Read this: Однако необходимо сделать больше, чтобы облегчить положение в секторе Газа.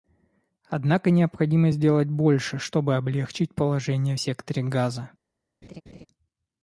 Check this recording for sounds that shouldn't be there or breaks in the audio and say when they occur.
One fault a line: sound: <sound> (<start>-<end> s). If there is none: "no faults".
sound: laugh (5.6-6.1 s)